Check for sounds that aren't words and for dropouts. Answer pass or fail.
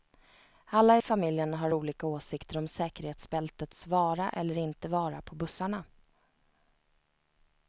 pass